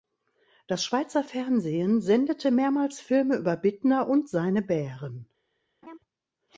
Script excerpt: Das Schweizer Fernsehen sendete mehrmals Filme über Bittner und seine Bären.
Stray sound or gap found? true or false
true